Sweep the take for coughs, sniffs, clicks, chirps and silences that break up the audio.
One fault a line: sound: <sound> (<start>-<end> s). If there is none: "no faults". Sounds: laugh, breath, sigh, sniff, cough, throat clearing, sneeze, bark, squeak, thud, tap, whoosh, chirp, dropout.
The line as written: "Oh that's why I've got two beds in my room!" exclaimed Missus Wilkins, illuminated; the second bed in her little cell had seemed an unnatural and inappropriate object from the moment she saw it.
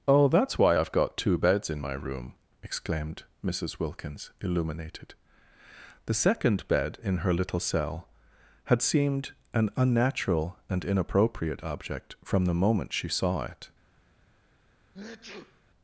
sound: sneeze (14.9-15.6 s)